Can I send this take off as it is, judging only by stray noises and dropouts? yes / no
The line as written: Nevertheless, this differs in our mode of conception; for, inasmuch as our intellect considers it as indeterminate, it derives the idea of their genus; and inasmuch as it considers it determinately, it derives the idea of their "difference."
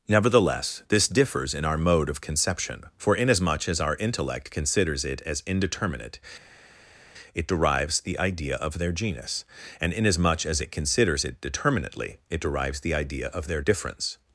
yes